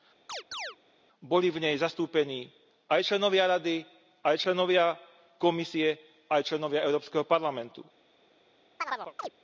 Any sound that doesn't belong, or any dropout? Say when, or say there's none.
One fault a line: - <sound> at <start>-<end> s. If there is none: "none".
- chirp at 0.3-0.8 s
- chirp at 8.8-9.3 s